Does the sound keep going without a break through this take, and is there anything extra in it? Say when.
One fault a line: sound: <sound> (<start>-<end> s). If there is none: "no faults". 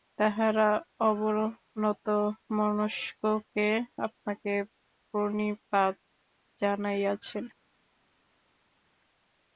no faults